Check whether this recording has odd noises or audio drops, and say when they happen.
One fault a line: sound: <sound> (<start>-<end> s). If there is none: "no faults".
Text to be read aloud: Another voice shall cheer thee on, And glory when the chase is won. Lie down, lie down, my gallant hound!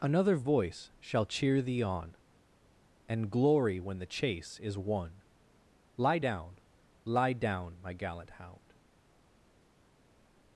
no faults